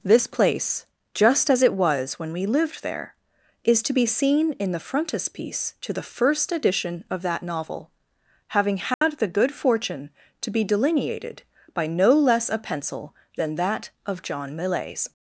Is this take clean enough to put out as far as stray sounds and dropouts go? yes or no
no